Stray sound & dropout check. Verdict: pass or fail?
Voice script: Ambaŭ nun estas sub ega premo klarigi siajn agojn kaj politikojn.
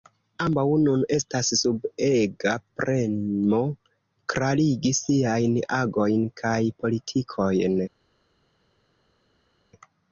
pass